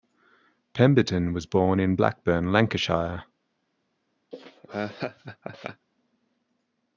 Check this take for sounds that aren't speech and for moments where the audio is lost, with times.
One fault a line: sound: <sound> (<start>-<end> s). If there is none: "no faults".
sound: laugh (4.3-5.9 s)